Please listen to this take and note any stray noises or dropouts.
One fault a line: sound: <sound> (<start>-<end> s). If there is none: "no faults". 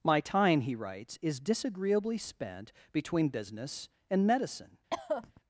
sound: cough (4.9-5.4 s)